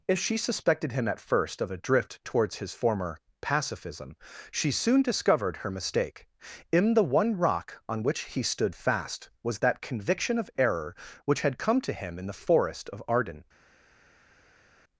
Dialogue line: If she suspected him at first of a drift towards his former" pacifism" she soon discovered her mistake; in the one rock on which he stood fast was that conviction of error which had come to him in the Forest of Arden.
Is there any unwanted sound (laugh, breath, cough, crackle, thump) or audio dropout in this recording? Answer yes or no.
no